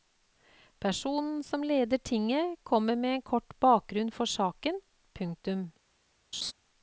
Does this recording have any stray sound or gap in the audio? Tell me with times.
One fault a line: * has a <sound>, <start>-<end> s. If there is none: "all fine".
* has a laugh, 6.3-6.5 s